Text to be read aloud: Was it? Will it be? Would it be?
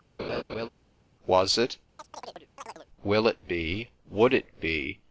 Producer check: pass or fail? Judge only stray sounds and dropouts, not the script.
fail